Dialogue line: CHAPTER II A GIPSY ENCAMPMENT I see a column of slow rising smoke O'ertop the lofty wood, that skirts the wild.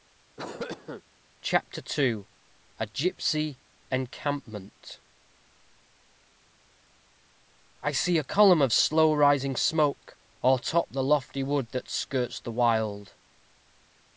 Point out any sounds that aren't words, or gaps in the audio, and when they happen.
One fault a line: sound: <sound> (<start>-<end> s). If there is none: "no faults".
sound: cough (0.4-1.0 s)